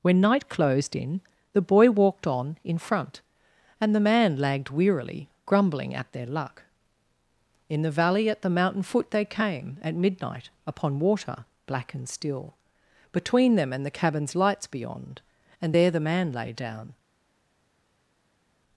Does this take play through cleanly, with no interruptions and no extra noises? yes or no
yes